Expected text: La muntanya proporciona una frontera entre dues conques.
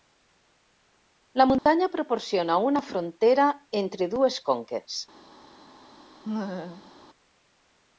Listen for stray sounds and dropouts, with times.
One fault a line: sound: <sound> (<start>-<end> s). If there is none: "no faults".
sound: dropout (1.6-1.7 s)
sound: laugh (6.2-6.9 s)